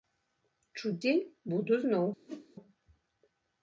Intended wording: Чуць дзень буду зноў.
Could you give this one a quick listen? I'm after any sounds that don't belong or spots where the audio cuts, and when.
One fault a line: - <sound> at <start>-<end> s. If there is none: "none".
- whoosh at 2.3-2.5 s